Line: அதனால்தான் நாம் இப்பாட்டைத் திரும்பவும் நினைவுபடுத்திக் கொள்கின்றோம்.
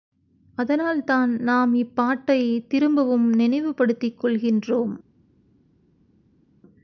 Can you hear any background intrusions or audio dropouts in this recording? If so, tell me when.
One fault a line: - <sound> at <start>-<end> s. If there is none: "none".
none